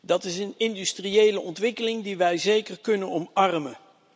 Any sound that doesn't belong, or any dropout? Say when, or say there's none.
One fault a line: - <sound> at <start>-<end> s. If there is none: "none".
none